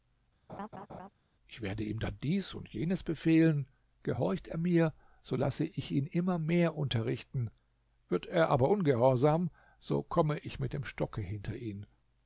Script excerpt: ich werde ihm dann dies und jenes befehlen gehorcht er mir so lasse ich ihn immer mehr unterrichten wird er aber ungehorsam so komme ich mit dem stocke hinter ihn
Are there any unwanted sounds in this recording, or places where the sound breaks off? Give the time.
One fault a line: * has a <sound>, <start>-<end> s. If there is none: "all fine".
* has a laugh, 0.5-1.1 s